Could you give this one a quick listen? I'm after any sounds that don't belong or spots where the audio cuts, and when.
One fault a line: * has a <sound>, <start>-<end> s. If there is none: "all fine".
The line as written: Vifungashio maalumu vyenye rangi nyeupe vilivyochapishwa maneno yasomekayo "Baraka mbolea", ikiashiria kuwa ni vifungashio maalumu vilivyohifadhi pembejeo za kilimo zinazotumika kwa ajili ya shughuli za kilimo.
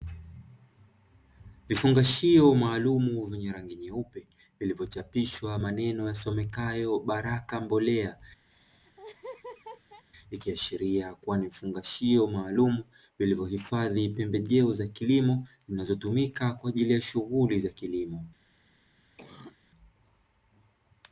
* has a laugh, 8.5-10.0 s
* has a cough, 19.2-19.6 s